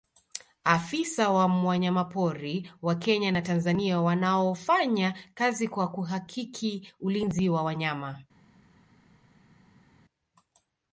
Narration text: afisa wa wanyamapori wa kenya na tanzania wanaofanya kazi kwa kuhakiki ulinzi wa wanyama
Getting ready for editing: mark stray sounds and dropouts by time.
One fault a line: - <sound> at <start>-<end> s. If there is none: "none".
none